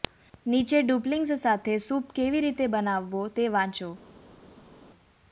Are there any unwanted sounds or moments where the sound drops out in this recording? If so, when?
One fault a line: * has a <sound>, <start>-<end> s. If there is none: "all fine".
all fine